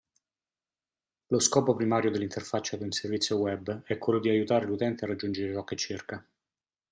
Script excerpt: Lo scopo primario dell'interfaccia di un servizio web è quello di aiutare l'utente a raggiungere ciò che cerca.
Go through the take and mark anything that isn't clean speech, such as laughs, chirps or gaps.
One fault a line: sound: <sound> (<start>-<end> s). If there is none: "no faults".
no faults